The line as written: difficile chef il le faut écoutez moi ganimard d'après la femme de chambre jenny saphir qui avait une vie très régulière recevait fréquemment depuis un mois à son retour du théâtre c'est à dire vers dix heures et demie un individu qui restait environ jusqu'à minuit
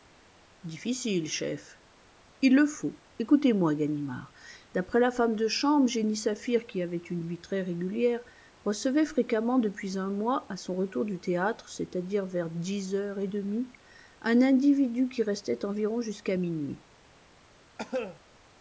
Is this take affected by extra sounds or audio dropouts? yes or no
yes